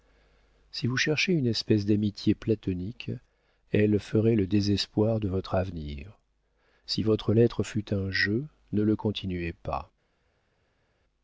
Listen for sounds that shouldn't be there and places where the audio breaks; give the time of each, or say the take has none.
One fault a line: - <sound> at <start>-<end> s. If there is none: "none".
none